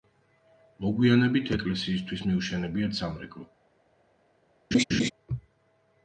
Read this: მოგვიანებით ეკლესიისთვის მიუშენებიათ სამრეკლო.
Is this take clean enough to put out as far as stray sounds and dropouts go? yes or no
no